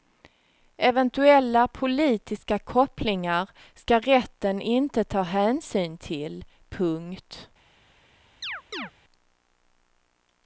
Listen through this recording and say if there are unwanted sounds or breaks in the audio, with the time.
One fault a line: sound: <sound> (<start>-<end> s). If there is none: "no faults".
sound: chirp (8.4-8.9 s)